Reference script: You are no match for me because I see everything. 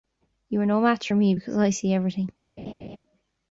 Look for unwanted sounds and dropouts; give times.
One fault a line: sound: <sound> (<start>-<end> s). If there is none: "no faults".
sound: laugh (2.6-3.0 s)